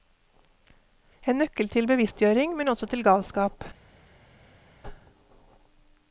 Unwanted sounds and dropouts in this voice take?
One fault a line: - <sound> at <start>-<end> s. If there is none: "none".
none